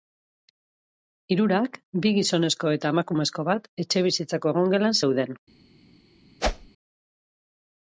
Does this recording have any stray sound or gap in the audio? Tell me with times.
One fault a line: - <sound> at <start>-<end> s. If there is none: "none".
- whoosh at 6.4-6.7 s